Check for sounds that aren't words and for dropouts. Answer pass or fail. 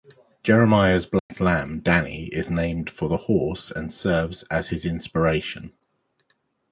fail